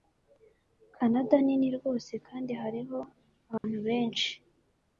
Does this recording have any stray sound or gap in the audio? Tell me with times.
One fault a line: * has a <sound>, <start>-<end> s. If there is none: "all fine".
* has a dropout, 3.6-3.6 s